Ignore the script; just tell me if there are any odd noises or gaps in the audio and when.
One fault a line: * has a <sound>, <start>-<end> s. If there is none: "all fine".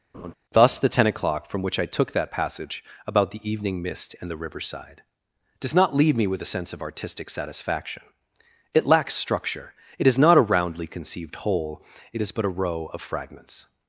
* has a laugh, 0.1-0.3 s